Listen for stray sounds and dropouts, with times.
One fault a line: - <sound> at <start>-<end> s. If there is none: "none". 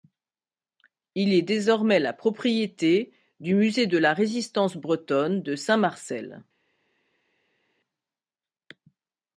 none